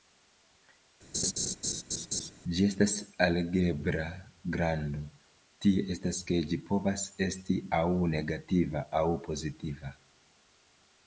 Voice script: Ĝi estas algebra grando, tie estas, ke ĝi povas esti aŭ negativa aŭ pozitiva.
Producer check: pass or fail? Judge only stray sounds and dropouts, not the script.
fail